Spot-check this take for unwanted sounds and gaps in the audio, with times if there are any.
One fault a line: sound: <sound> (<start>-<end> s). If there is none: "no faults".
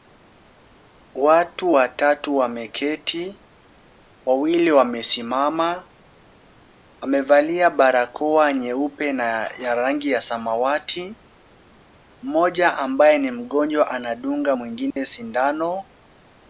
sound: dropout (14.9-15.0 s)